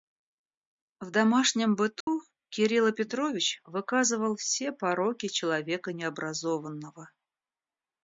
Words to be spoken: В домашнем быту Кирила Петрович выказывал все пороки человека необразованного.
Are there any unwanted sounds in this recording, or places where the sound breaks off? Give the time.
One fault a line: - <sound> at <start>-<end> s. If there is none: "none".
- dropout at 2.0-2.1 s